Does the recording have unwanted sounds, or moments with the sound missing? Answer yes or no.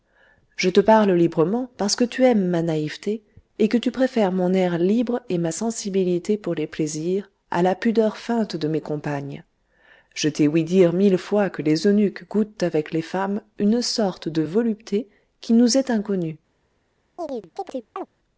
yes